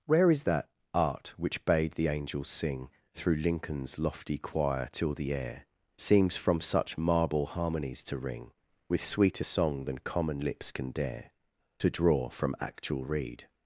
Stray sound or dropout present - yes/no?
no